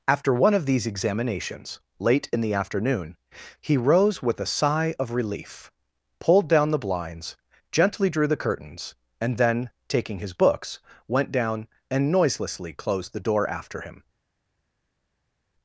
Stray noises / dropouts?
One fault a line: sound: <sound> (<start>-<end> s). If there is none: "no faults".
no faults